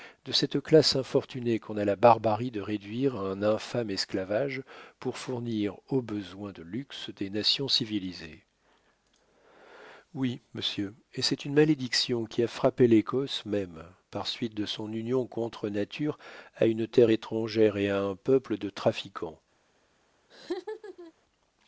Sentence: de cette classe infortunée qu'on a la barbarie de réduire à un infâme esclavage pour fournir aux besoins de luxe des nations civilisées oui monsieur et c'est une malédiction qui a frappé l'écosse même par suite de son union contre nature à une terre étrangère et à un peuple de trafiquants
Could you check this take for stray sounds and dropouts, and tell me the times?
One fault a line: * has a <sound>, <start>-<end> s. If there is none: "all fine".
* has a laugh, 20.3-21.1 s